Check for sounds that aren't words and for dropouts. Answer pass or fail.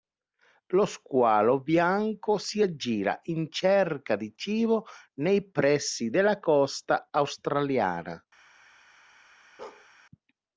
fail